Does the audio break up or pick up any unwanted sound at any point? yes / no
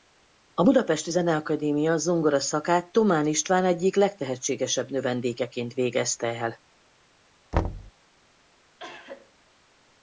yes